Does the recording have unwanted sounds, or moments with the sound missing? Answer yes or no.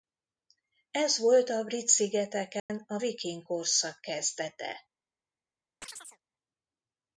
yes